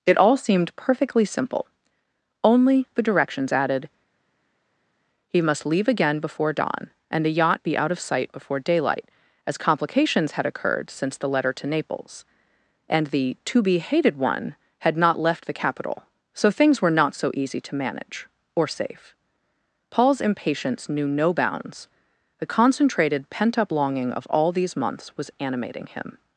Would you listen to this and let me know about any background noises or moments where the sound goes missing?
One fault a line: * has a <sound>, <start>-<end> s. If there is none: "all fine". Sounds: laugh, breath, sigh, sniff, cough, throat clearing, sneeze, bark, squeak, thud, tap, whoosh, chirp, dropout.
all fine